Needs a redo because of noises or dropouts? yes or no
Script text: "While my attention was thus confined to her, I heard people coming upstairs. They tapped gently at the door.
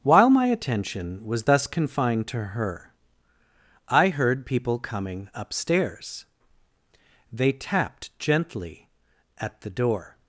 no